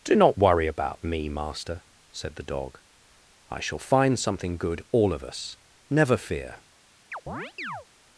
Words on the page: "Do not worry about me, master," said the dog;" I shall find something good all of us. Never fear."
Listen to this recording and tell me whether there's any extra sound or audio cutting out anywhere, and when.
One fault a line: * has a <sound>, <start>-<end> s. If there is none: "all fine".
* has a chirp, 7.1-7.9 s